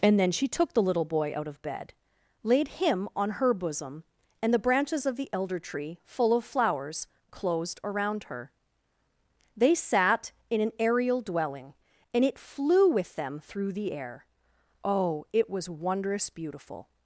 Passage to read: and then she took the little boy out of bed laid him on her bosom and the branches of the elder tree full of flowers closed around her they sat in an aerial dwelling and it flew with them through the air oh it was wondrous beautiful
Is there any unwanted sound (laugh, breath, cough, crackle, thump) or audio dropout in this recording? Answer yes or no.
no